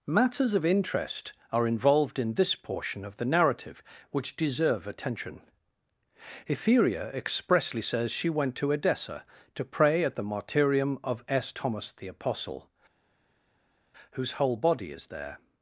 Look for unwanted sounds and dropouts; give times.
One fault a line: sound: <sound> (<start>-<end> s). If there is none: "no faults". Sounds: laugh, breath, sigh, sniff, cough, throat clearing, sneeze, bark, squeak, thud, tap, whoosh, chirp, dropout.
no faults